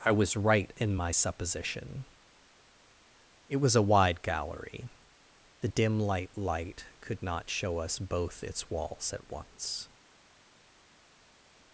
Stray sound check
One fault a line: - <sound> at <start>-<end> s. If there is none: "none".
none